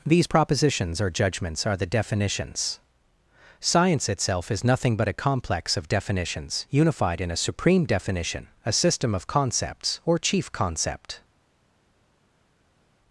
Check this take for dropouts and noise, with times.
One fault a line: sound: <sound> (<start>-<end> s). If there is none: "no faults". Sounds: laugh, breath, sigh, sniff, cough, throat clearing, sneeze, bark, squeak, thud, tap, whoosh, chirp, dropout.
no faults